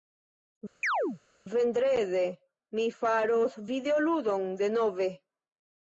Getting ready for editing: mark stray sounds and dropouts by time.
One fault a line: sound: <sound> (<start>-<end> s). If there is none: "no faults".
sound: chirp (0.8-1.2 s)